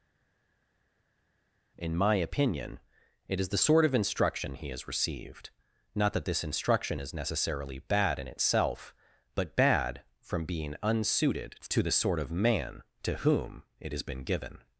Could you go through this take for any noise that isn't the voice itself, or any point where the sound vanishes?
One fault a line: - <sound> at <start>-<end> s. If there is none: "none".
none